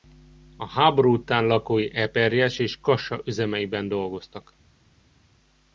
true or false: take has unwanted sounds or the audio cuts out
false